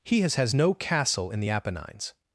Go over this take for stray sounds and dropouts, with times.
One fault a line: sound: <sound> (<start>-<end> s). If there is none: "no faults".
no faults